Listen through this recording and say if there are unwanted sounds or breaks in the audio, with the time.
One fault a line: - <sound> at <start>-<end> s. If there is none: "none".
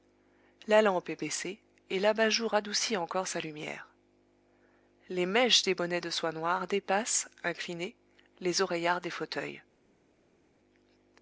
none